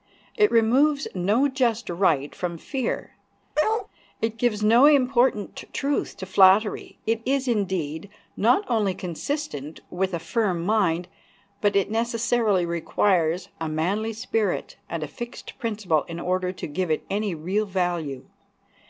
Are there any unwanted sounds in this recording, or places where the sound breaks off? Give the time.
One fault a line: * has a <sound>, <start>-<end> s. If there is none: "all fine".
* has a bark, 3.5-3.9 s